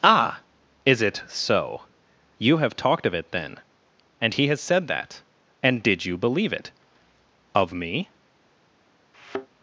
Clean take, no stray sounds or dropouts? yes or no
no